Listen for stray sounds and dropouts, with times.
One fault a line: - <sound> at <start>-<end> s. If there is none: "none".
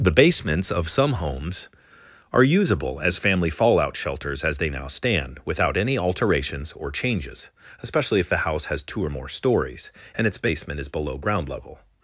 none